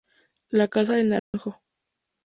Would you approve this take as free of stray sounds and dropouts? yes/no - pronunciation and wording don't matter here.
no